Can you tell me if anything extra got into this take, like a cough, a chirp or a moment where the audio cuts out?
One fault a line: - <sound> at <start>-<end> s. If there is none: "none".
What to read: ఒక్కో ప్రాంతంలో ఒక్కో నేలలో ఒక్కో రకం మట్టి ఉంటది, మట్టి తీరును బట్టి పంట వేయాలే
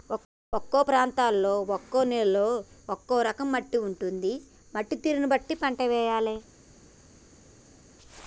none